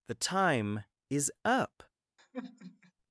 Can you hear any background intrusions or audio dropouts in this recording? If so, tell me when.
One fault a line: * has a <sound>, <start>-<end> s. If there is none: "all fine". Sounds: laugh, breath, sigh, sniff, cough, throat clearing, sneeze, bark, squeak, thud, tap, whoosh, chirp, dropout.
* has a sigh, 2.2-2.9 s